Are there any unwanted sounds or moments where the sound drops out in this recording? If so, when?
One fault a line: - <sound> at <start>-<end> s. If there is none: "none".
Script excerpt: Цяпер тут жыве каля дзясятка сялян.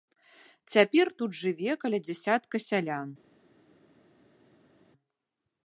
none